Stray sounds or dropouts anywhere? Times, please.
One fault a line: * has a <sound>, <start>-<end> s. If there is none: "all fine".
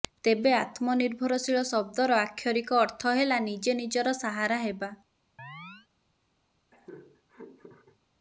* has a chirp, 5.4-5.9 s
* has a laugh, 6.7-8.0 s